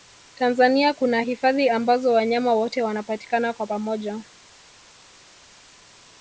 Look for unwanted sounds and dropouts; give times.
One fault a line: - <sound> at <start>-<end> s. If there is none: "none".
none